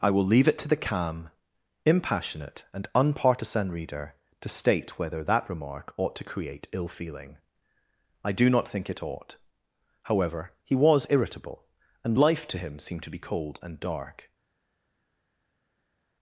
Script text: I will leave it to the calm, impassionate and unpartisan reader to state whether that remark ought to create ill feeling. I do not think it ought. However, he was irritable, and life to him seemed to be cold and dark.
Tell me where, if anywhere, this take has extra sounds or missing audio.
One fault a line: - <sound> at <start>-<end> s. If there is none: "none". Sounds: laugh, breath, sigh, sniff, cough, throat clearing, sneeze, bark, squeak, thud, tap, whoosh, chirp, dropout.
none